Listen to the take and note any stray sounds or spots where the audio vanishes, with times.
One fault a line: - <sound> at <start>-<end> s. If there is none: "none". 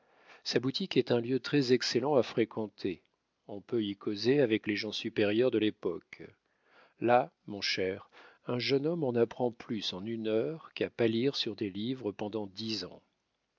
none